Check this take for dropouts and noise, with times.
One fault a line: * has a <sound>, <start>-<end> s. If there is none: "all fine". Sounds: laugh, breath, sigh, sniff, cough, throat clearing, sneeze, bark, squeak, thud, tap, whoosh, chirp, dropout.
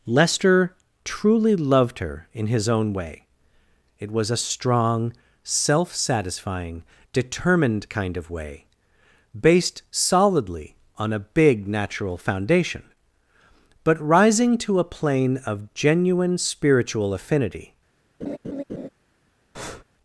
* has a laugh, 18.2-18.9 s
* has a breath, 19.5-19.8 s